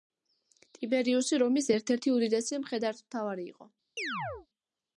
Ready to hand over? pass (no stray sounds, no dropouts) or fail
fail